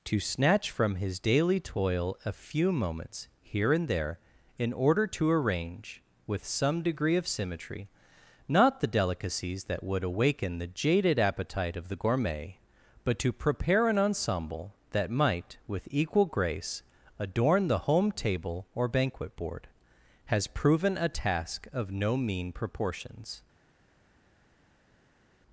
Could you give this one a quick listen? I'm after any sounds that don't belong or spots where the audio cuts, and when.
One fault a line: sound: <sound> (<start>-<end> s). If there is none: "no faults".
no faults